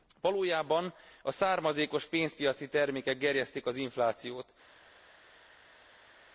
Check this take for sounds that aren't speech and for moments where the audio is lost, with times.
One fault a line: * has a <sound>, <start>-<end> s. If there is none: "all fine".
all fine